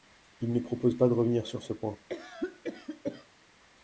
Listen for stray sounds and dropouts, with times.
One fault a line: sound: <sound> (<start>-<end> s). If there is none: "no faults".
sound: cough (2.1-3.3 s)